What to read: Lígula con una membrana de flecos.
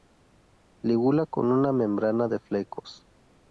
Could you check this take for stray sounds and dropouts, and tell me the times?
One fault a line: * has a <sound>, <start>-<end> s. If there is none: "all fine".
all fine